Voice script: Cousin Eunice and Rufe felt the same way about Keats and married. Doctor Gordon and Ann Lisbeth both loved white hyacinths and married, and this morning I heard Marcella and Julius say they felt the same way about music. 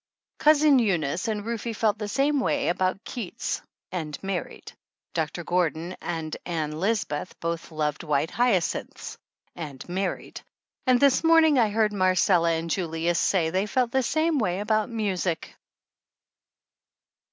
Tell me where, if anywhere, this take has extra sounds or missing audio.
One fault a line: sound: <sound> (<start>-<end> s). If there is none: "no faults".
no faults